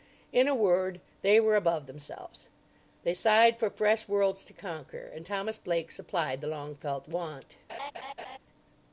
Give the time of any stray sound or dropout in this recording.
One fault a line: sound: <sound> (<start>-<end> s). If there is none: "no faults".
sound: laugh (7.7-8.4 s)